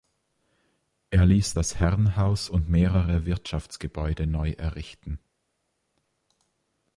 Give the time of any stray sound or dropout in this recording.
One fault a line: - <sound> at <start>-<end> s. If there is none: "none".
none